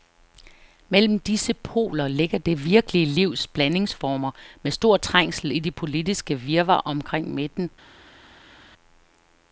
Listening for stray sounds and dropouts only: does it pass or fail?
pass